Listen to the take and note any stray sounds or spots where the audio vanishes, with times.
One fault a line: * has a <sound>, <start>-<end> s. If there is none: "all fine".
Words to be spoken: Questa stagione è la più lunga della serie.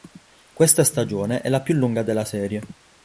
all fine